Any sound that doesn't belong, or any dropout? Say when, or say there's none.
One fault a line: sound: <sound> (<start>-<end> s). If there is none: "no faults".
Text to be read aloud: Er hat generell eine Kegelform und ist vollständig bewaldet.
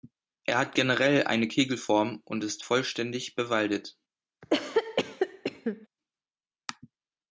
sound: cough (4.4-5.9 s)